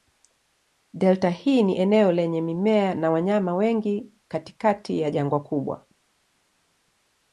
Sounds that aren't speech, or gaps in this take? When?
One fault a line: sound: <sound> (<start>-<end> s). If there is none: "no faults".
no faults